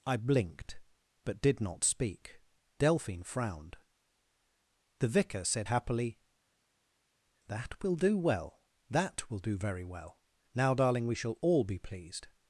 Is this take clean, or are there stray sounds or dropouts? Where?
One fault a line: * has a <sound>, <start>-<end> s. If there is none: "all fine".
all fine